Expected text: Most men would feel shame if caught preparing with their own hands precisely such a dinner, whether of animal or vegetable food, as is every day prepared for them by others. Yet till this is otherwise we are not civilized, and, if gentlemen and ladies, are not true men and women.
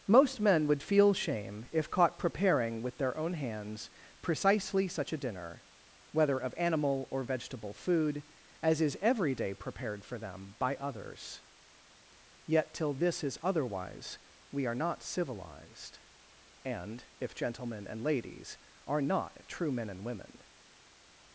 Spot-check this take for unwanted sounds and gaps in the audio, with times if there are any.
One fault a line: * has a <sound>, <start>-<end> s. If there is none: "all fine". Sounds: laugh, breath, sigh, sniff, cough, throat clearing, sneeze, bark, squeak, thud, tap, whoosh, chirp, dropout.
all fine